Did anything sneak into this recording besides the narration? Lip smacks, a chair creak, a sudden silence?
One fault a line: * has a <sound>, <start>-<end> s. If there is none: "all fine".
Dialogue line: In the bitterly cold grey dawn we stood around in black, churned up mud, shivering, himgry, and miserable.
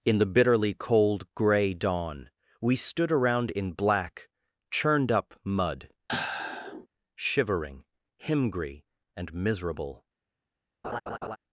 * has a sigh, 6.1-6.9 s
* has a laugh, 10.8-11.4 s